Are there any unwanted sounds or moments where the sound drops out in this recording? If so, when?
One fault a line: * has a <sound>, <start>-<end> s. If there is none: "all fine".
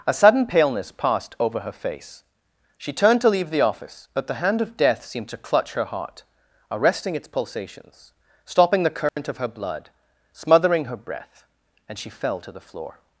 * has a dropout, 9.1-9.2 s